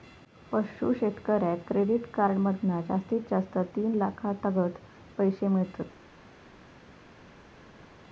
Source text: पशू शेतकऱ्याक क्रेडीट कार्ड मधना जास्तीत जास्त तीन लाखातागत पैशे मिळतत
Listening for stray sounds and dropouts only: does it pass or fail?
pass